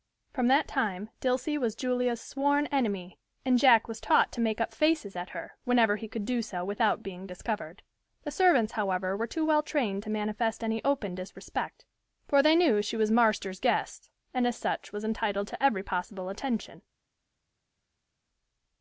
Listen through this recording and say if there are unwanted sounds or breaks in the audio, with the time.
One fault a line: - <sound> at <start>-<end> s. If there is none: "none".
none